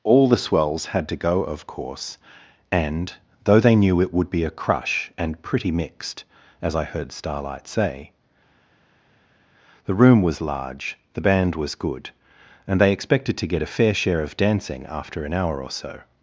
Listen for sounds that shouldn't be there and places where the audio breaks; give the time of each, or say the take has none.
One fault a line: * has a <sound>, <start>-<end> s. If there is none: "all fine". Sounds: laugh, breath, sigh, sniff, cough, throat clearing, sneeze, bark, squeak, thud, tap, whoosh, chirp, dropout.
all fine